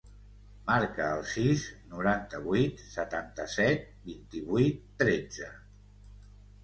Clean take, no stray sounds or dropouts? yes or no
yes